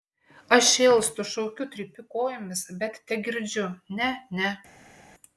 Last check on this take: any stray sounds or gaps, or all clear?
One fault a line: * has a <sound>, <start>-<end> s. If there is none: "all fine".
all fine